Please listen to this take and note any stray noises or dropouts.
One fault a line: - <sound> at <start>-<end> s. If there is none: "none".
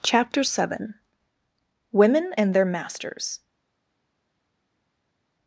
none